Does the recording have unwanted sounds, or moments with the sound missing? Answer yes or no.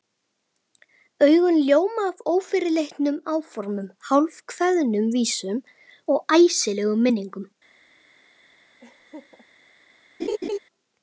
yes